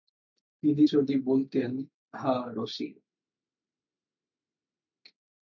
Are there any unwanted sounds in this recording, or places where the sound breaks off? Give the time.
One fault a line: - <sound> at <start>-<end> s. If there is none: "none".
none